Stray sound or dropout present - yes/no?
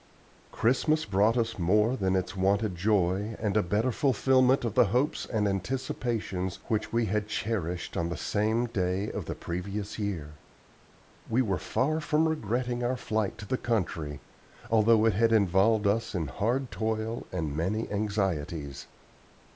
no